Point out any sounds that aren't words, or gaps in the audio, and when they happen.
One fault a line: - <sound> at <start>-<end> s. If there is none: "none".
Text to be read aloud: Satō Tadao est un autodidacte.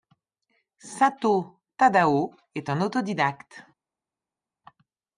none